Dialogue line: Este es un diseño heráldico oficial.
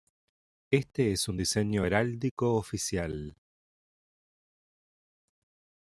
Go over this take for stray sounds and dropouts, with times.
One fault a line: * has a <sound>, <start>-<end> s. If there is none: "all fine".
all fine